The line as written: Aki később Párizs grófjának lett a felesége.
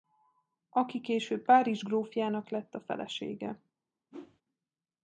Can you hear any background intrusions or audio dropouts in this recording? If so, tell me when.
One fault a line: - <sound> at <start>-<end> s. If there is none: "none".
- whoosh at 4.1-4.4 s